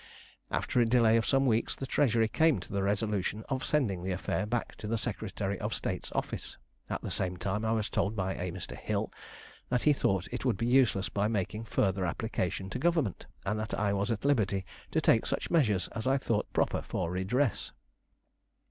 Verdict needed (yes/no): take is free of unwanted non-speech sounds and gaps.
yes